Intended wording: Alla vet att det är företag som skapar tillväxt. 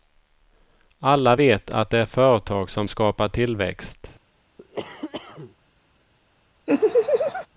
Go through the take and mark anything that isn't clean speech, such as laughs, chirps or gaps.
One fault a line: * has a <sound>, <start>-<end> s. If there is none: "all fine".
* has a cough, 4.6-5.6 s
* has a laugh, 6.7-7.5 s